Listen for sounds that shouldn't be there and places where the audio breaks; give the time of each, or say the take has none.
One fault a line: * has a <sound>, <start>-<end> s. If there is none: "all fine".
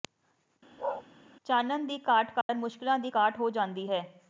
* has a bark, 0.8-1.0 s
* has a dropout, 2.4-2.5 s